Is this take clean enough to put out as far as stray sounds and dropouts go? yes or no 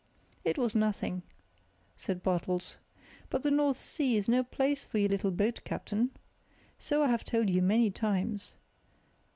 yes